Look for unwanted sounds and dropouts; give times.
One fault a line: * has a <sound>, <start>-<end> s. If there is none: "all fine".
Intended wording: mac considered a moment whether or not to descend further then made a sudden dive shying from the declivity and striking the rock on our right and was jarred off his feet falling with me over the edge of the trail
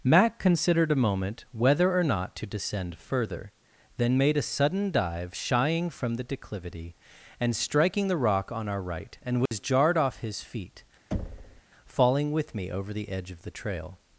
* has a dropout, 9.5-9.5 s
* has a thud, 11.1-11.6 s